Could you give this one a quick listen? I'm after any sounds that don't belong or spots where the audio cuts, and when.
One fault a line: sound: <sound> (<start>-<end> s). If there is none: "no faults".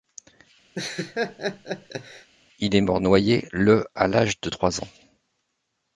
sound: laugh (0.7-2.3 s)